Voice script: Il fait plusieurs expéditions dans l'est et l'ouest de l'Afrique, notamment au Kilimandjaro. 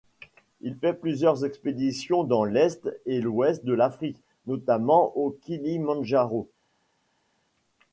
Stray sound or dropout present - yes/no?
no